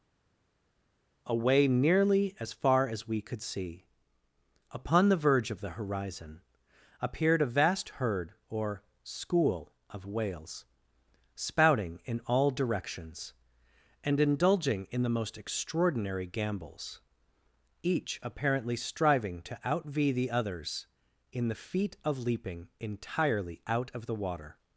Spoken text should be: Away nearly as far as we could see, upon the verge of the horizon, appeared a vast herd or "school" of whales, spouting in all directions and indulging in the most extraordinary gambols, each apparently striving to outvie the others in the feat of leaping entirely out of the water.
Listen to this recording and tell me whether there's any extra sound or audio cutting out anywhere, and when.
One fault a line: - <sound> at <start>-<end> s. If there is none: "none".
none